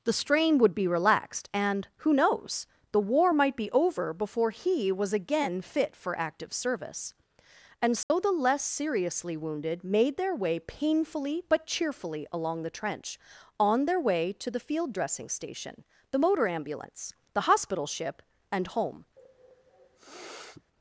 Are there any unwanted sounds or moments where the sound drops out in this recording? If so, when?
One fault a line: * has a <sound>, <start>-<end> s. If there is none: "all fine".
* has a dropout, 8.0-8.1 s
* has a sniff, 19.2-20.6 s